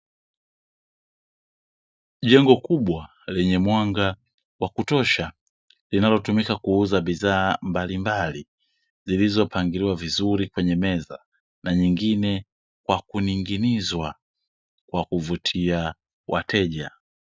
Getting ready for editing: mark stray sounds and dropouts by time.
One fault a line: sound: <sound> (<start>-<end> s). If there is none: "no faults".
no faults